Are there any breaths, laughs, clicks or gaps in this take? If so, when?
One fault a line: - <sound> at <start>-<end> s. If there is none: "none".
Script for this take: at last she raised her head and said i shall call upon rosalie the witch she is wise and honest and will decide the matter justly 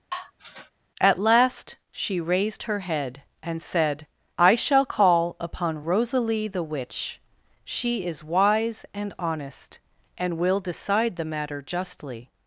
- sigh at 0.1-0.7 s